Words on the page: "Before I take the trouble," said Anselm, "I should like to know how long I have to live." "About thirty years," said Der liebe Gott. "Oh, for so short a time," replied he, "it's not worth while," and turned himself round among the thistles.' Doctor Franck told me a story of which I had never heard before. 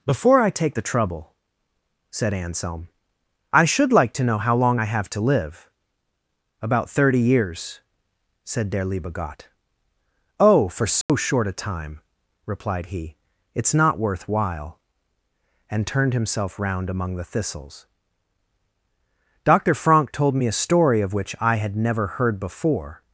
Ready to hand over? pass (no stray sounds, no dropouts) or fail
fail